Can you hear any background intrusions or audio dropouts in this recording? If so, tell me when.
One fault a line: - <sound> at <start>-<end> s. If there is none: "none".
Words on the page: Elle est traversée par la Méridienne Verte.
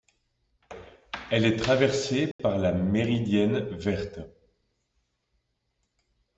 - dropout at 2.3-2.4 s